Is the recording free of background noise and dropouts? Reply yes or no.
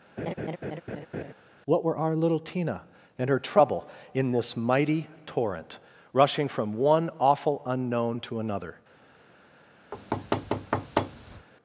no